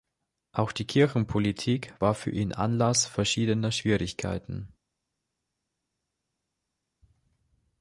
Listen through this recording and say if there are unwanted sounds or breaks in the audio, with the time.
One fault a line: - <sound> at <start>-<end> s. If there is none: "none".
none